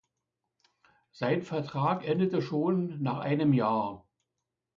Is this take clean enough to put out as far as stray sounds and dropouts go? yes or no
yes